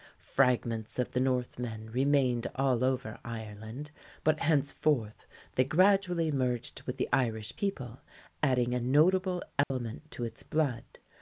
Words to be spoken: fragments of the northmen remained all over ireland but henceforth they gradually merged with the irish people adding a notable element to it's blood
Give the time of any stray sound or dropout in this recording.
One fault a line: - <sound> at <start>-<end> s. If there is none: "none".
- dropout at 9.6-9.7 s